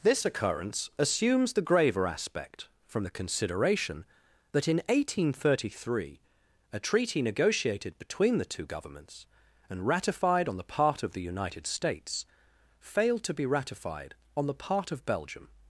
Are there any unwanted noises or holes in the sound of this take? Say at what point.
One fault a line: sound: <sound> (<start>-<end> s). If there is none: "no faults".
no faults